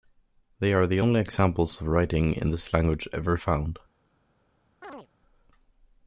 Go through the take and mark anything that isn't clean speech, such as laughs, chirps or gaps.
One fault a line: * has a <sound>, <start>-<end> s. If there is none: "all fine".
* has a chirp, 4.8-5.1 s